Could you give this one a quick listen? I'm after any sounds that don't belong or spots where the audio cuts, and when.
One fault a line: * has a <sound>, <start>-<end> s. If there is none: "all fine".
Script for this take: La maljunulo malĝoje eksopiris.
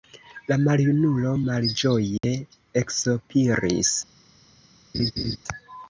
* has a dropout, 2.2-2.2 s
* has a laugh, 4.9-5.4 s